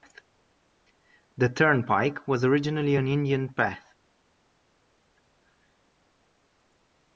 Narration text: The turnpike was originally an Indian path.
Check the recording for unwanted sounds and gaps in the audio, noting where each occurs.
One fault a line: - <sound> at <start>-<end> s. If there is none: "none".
none